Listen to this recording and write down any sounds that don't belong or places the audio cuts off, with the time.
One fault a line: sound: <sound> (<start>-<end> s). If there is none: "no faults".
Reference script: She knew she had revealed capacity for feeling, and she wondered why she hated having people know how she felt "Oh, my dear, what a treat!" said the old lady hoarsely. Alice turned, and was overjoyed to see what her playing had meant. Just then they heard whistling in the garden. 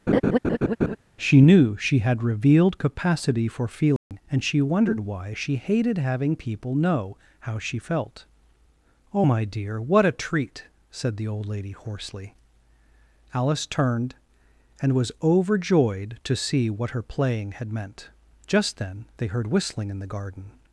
sound: laugh (0.1-1.0 s)
sound: dropout (4.0-4.1 s)